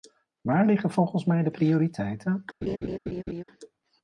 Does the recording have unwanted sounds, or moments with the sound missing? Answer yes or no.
yes